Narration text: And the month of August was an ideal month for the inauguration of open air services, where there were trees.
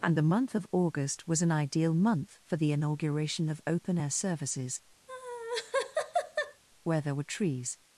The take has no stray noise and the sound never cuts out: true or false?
false